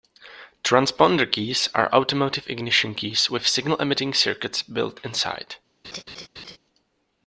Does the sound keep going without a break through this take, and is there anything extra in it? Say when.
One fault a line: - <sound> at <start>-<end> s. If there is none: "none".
- laugh at 5.8-6.6 s